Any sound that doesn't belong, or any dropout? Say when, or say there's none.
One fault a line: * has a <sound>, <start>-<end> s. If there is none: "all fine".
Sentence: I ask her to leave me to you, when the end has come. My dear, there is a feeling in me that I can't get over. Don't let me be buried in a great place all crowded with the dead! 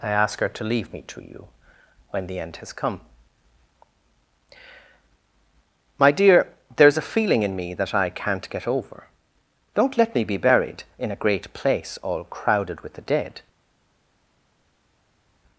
all fine